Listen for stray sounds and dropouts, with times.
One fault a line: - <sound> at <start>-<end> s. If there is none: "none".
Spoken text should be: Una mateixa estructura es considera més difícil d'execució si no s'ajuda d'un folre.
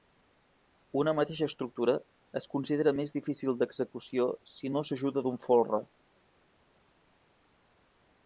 none